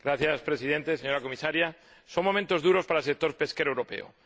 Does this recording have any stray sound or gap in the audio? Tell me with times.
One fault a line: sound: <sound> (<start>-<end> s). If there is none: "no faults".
no faults